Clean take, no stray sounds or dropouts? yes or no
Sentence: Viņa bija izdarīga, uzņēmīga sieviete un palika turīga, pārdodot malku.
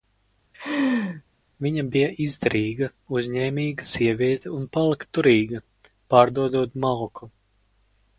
no